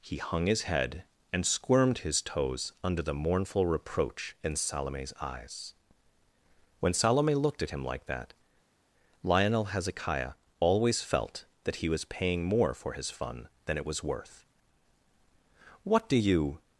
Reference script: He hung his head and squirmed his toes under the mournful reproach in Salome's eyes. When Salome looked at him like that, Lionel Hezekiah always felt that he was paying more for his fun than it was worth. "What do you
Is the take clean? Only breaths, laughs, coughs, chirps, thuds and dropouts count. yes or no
yes